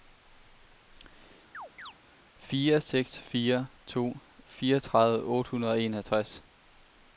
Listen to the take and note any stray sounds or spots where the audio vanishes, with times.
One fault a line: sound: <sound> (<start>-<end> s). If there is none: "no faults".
sound: chirp (1.5-1.9 s)